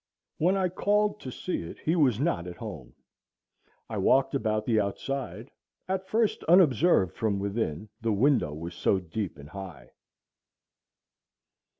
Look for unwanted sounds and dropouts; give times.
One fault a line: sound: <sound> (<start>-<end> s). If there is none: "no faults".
no faults